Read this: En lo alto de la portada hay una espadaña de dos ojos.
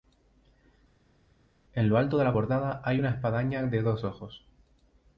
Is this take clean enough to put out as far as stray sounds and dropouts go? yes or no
yes